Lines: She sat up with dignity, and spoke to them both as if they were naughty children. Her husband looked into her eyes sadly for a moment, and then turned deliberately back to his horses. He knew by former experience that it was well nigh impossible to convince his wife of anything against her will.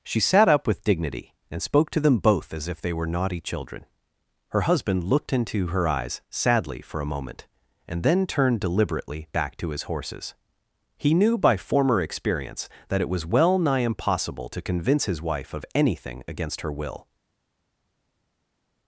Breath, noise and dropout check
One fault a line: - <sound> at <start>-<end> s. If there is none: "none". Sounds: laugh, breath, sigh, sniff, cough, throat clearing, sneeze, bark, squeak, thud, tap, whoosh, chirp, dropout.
none